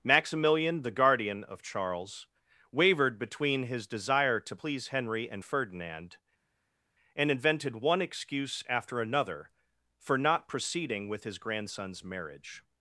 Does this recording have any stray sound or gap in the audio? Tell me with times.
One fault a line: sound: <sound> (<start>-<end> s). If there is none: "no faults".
no faults